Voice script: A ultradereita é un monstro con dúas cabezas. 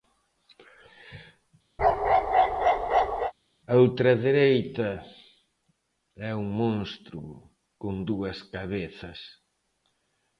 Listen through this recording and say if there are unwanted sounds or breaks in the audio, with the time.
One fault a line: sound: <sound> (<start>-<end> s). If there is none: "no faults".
sound: bark (1.8-3.3 s)